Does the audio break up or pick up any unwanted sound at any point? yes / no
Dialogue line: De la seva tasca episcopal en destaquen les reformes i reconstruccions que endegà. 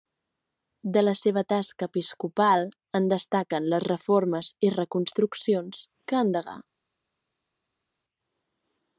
no